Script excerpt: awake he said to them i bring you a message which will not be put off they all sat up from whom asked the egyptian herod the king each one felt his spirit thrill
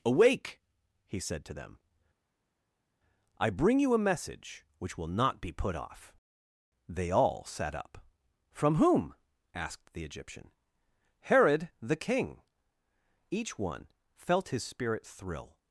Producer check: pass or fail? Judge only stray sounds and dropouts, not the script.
pass